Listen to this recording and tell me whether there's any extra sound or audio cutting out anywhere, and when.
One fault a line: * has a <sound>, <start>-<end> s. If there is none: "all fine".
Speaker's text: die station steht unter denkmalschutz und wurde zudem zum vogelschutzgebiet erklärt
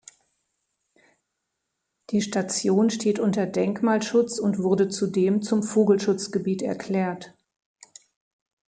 all fine